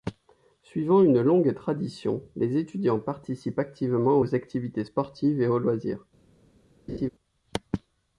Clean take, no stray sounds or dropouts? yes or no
no